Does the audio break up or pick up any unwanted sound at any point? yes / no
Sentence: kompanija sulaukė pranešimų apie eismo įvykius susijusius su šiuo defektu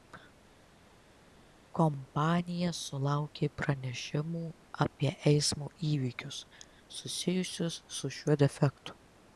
no